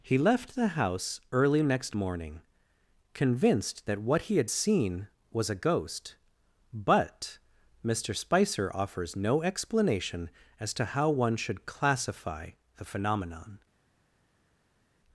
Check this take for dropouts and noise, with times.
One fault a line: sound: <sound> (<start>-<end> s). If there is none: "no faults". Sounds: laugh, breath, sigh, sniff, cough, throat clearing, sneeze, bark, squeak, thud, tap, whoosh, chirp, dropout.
no faults